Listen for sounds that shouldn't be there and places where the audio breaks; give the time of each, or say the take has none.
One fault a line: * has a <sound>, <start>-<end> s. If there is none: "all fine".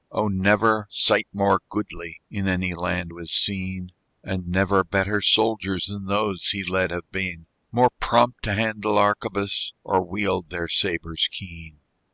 all fine